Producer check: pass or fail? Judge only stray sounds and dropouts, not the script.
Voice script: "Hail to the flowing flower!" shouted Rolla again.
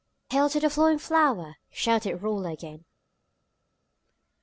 pass